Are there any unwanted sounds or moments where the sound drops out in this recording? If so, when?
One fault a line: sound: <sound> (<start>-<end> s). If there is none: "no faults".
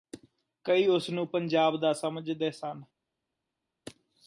no faults